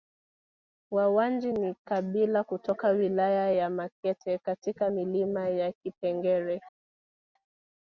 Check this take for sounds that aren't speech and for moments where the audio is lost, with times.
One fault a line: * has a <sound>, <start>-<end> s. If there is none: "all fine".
all fine